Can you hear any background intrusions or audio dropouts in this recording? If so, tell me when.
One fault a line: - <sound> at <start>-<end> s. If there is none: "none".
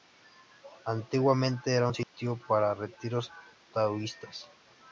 - dropout at 2.0-2.1 s